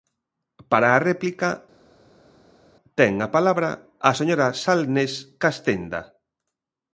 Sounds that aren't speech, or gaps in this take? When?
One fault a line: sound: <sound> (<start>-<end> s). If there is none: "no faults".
no faults